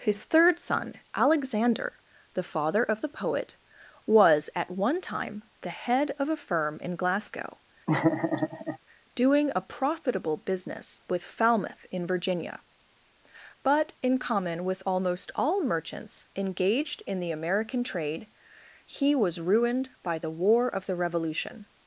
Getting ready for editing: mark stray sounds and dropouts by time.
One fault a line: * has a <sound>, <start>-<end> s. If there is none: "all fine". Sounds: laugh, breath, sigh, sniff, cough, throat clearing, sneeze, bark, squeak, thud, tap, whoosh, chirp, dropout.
* has a laugh, 7.9-8.8 s